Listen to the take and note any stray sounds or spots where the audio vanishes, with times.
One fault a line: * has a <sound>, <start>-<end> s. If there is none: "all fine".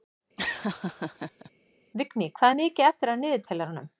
* has a laugh, 0.4-1.5 s